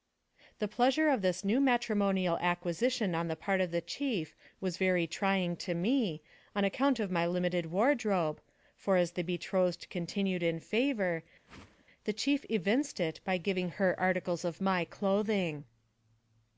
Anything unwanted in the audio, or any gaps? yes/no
yes